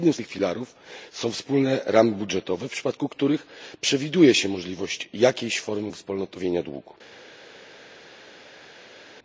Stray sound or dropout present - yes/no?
no